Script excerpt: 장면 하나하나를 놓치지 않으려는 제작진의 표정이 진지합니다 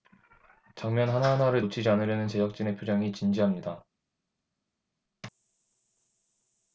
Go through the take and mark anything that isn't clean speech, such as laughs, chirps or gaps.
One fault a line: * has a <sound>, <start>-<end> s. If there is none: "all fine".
all fine